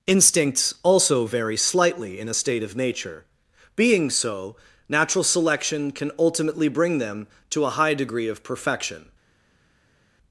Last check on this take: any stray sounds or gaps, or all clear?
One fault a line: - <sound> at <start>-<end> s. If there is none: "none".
none